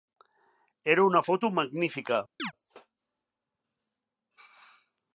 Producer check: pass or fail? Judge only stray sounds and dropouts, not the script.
fail